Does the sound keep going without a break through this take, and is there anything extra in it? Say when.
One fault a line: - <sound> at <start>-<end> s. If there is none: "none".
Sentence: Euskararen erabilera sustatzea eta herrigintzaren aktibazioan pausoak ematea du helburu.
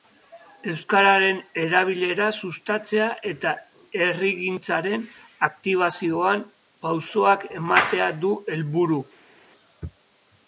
none